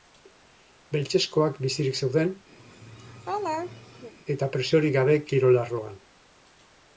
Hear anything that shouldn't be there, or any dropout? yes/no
yes